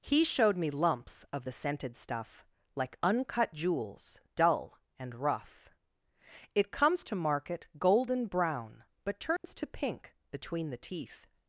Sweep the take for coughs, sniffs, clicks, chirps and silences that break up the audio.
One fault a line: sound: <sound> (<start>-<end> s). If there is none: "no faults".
sound: dropout (9.4-9.4 s)